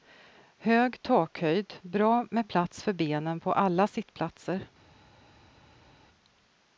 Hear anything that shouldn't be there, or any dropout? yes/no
no